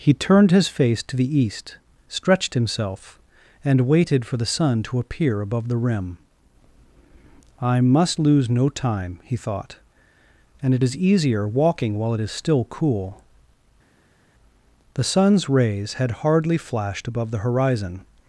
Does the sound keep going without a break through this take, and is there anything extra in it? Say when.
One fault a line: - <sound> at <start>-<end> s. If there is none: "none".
none